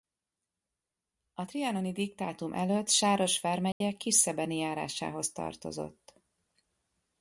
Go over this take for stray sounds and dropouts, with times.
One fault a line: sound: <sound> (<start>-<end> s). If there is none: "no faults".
sound: dropout (3.7-3.8 s)